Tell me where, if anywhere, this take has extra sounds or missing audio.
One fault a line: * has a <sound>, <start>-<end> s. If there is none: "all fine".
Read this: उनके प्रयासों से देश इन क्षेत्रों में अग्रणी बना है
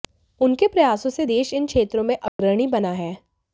* has a dropout, 2.3-2.4 s